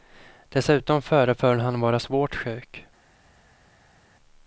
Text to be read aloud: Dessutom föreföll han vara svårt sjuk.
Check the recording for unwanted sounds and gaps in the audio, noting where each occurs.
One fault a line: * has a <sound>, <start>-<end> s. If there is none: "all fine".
all fine